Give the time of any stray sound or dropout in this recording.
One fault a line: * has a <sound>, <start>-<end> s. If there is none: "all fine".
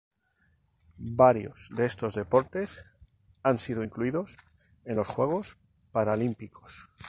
all fine